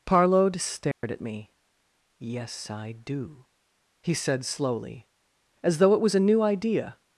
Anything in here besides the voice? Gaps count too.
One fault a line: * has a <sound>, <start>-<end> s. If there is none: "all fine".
* has a dropout, 0.9-1.0 s